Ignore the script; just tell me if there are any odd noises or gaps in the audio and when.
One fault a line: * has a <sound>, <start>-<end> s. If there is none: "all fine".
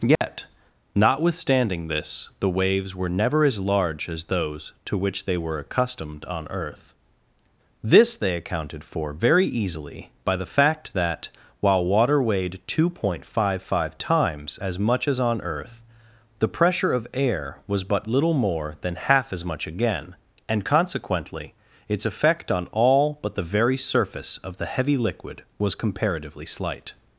* has a dropout, 0.2-0.2 s